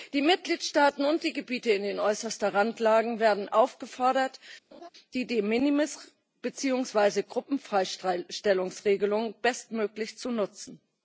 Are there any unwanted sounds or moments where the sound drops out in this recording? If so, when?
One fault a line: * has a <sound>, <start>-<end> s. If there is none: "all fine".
* has a laugh, 4.7-4.9 s